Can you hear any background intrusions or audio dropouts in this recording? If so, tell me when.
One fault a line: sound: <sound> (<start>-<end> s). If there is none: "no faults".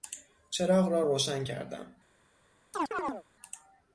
sound: chirp (2.7-3.2 s)